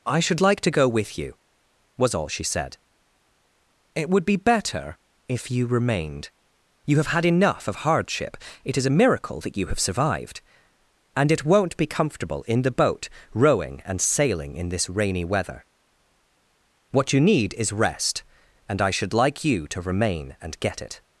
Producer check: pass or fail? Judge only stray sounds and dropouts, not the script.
pass